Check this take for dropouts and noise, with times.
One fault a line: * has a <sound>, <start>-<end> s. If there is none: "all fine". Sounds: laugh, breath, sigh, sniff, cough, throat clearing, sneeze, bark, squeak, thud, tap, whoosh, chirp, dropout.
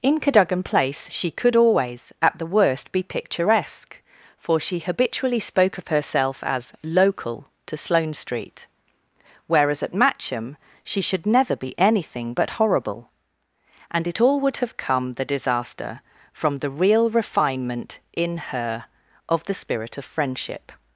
all fine